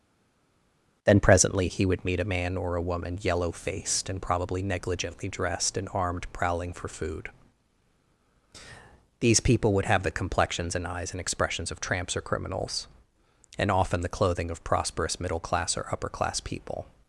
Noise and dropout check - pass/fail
pass